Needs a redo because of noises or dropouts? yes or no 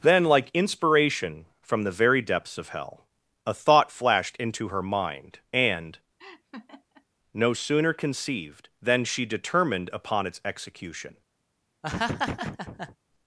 yes